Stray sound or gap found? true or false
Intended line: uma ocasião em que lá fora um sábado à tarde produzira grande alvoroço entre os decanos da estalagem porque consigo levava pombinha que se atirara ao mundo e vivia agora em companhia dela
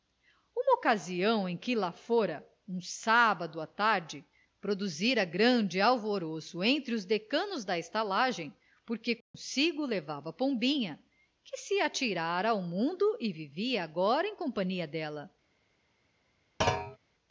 true